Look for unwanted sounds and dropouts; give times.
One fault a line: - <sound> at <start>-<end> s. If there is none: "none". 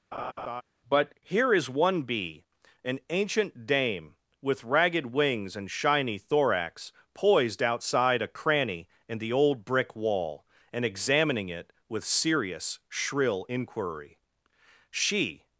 - laugh at 0.1-0.6 s